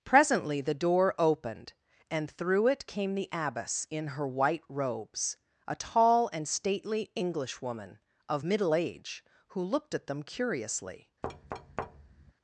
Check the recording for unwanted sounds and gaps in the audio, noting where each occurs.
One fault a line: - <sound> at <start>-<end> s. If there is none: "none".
- thud at 11.2-12.3 s